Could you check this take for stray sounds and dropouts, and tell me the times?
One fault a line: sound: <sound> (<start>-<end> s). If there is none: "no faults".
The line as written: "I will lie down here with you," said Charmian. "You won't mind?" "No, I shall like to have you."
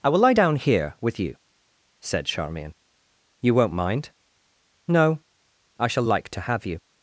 no faults